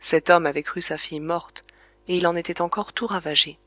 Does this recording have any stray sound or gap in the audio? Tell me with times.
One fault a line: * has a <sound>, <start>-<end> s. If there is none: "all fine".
all fine